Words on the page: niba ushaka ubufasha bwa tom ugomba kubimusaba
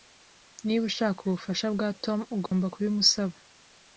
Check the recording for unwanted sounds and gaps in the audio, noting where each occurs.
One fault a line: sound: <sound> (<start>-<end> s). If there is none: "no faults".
sound: dropout (2.5-2.5 s)